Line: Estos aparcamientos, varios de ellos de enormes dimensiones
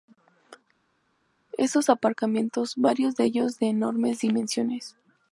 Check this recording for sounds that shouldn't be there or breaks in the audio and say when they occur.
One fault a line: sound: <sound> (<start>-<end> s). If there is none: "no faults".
no faults